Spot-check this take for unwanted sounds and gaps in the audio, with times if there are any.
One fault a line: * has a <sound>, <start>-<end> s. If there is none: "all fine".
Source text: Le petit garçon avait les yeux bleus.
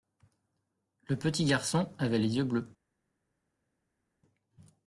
all fine